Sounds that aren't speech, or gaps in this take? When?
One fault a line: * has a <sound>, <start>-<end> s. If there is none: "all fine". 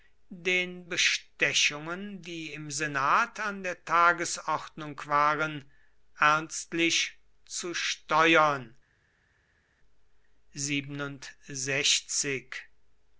all fine